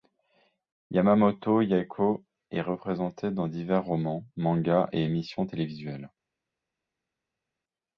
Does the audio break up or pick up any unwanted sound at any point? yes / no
no